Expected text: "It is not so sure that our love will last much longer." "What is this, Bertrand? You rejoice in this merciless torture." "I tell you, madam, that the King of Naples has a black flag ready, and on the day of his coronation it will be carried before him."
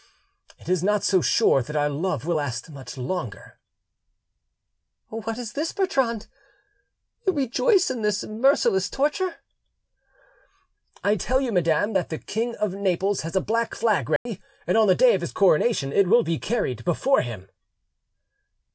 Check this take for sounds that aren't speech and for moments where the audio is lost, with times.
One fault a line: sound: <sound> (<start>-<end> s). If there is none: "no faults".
sound: dropout (14.2-14.3 s)